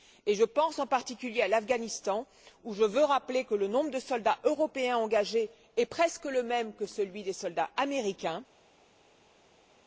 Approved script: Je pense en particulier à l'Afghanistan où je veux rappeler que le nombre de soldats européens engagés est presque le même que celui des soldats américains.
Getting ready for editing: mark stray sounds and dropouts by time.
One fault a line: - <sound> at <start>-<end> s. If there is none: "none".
none